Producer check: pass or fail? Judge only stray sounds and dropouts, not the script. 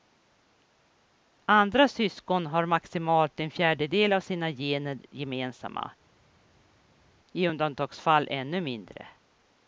pass